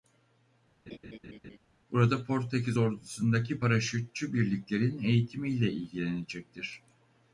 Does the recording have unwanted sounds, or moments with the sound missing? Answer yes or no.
yes